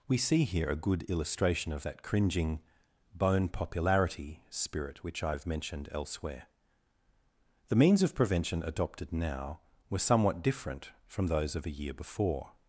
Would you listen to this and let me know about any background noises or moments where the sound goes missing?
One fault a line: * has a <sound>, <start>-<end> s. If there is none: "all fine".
all fine